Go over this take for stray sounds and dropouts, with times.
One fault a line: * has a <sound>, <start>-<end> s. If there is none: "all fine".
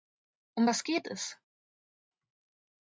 all fine